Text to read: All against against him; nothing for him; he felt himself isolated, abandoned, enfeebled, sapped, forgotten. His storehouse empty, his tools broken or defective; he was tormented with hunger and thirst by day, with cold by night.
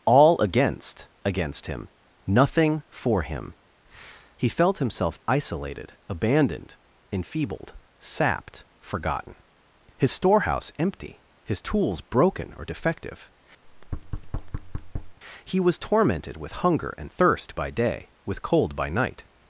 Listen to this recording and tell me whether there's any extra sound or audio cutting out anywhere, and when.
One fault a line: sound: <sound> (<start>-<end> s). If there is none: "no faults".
sound: thud (13.6-15.2 s)